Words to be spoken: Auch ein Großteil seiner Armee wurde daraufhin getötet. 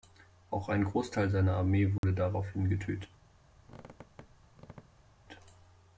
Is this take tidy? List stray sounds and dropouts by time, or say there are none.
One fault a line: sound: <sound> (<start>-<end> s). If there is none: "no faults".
sound: dropout (2.0-2.0 s)
sound: squeak (3.6-5.1 s)